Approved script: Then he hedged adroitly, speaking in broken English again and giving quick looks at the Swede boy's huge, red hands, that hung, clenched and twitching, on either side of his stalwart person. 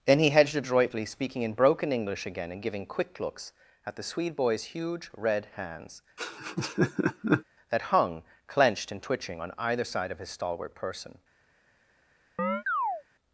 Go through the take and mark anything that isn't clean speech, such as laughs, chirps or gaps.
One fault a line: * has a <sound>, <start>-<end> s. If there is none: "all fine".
* has a laugh, 6.2-7.4 s
* has a chirp, 12.4-13.0 s